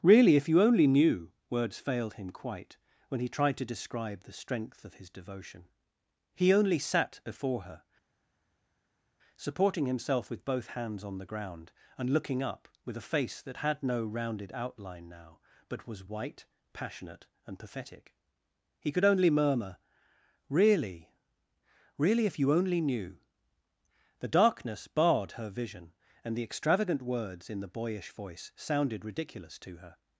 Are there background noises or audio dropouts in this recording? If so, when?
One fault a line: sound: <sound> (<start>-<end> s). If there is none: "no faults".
no faults